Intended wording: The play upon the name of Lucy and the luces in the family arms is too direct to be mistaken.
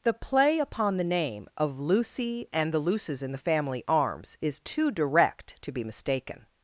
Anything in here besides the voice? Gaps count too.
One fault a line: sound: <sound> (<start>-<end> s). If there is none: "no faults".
no faults